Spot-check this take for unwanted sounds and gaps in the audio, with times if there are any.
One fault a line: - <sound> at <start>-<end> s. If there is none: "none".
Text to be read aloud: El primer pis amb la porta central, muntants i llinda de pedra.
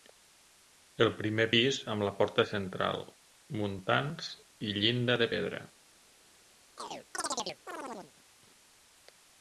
- chirp at 6.8-8.1 s